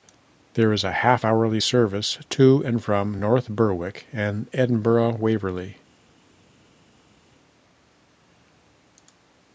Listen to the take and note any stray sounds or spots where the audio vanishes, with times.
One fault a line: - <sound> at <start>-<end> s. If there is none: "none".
none